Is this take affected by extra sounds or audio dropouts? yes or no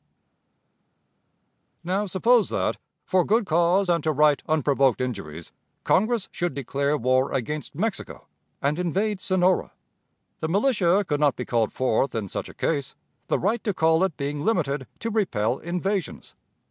no